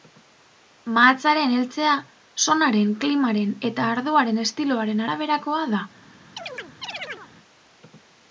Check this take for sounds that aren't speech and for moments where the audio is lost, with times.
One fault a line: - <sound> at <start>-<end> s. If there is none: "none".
- chirp at 6.4-7.3 s